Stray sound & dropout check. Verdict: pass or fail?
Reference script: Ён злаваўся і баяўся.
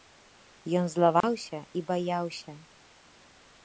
fail